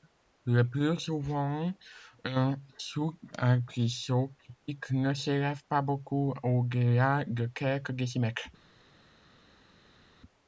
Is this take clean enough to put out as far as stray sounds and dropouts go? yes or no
yes